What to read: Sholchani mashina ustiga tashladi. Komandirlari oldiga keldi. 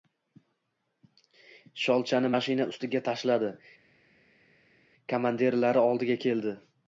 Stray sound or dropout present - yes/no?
no